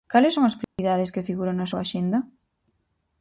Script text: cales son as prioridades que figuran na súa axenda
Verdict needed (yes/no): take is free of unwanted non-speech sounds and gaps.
no